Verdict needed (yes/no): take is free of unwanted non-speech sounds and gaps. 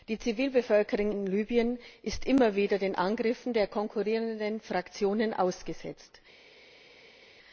yes